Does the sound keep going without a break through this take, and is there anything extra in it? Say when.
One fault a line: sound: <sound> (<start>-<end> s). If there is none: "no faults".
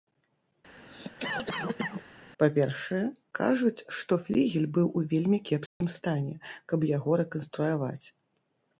sound: cough (0.9-2.1 s)
sound: dropout (5.7-5.8 s)